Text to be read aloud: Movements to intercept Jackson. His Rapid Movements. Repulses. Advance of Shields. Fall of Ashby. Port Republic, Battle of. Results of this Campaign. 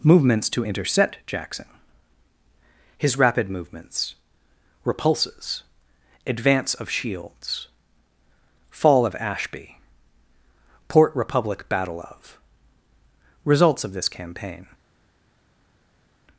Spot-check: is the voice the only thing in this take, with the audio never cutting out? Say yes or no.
yes